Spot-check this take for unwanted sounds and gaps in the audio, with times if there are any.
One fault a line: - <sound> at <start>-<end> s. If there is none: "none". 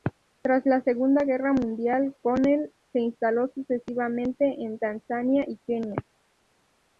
none